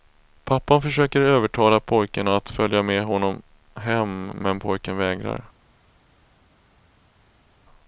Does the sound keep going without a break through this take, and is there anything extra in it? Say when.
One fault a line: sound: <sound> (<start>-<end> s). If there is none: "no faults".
no faults